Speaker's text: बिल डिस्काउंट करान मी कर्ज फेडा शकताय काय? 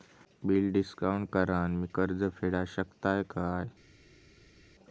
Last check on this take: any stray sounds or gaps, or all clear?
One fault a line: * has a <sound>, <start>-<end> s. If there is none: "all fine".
all fine